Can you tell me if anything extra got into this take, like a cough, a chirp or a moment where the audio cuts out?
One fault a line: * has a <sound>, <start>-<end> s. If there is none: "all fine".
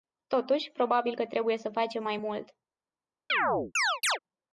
* has a chirp, 3.3-4.2 s